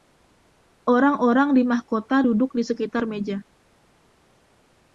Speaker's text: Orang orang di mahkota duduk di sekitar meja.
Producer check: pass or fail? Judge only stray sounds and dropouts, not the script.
pass